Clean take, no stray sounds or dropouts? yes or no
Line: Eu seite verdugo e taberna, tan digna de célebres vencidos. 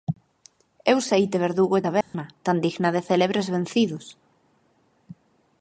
no